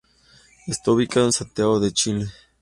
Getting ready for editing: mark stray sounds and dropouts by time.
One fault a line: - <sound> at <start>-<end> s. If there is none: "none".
none